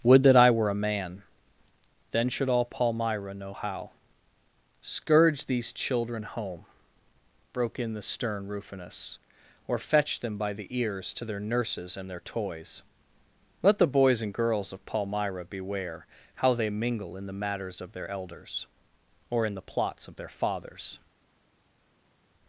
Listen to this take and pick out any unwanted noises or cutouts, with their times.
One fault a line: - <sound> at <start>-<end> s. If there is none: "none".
none